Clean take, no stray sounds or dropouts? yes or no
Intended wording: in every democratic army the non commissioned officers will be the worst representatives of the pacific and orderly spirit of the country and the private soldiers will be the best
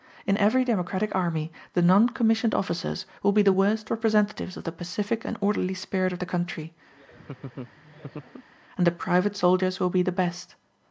no